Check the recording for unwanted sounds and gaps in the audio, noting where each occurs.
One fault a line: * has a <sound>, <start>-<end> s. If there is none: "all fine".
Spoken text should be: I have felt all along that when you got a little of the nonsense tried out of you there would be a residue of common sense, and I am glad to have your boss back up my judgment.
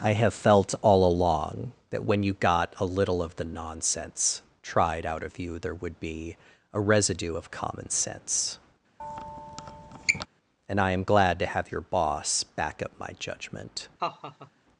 * has a squeak, 9.0-10.3 s
* has a laugh, 14.0-14.5 s